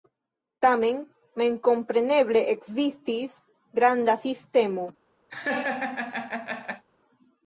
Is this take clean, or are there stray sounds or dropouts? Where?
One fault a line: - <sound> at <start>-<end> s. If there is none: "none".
- laugh at 5.3-6.8 s